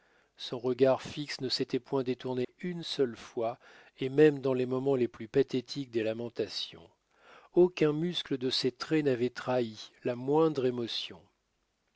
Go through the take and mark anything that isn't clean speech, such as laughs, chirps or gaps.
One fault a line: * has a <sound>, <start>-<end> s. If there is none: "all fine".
* has a dropout, 2.4-2.5 s